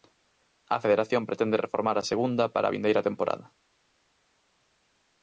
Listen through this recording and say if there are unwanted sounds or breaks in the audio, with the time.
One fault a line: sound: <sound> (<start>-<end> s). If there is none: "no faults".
no faults